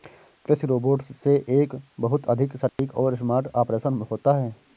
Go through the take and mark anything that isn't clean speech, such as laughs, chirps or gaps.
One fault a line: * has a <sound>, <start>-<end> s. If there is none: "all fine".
* has a dropout, 2.7-2.8 s